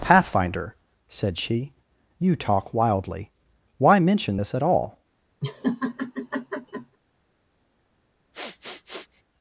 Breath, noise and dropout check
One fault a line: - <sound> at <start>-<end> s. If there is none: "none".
- laugh at 5.4-7.0 s
- sniff at 8.3-9.2 s